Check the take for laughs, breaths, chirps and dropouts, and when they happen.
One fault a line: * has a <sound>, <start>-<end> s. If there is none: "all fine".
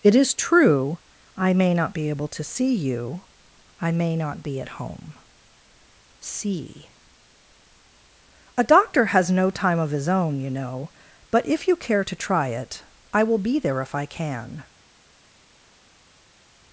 all fine